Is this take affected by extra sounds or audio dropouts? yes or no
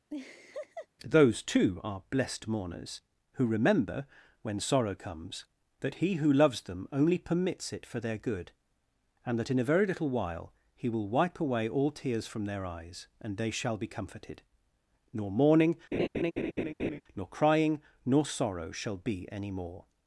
yes